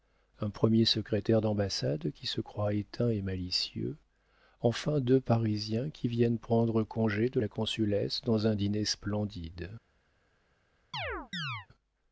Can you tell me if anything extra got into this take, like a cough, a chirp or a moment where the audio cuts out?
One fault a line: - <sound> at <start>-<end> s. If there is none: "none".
- chirp at 10.9-11.7 s